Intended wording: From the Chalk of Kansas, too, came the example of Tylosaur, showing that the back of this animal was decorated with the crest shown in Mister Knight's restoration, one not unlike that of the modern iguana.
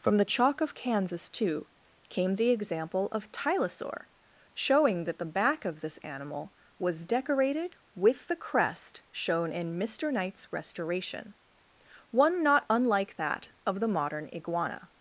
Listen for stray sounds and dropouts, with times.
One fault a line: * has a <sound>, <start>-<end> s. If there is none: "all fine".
all fine